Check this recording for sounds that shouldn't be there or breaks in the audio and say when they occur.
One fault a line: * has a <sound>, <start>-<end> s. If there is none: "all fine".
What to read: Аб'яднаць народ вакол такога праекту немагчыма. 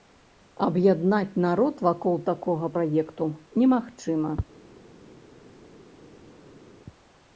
all fine